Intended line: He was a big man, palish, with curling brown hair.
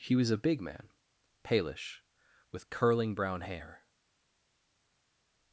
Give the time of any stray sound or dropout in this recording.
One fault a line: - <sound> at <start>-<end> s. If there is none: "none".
none